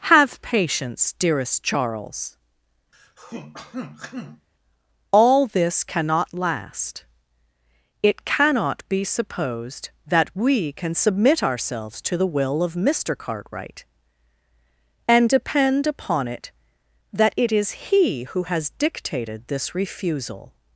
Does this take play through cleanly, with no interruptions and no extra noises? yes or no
no